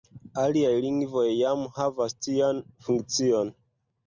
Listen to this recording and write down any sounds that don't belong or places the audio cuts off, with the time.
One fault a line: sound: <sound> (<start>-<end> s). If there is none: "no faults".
no faults